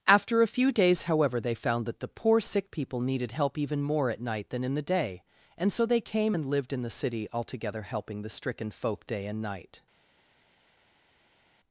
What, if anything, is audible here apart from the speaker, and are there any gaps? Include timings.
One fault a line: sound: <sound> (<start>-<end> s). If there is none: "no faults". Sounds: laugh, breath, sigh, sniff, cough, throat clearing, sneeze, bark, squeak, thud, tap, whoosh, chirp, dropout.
no faults